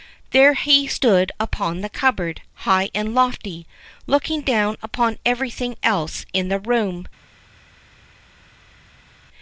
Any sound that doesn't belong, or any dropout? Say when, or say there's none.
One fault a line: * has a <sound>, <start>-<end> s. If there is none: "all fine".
all fine